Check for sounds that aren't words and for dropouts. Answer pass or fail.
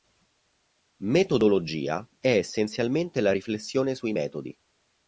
pass